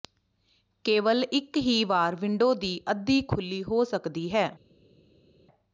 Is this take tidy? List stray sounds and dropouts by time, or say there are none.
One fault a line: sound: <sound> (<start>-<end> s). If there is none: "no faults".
no faults